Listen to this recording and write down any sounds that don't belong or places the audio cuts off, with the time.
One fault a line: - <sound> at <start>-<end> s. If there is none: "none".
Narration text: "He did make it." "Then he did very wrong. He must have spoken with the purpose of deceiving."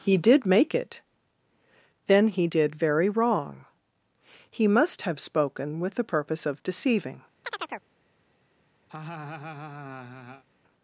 - chirp at 7.4-7.9 s
- laugh at 8.9-10.4 s